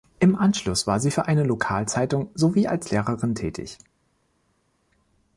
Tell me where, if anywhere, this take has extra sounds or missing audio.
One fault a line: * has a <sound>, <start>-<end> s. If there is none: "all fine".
all fine